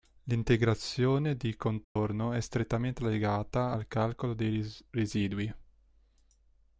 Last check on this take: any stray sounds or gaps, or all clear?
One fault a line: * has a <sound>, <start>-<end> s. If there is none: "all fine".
* has a dropout, 1.8-2.0 s